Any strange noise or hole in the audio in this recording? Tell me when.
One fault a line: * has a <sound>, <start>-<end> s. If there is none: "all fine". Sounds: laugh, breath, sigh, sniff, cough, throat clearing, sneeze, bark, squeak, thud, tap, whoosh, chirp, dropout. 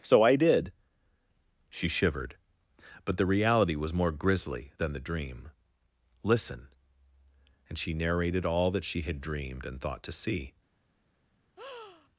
* has a breath, 11.6-12.1 s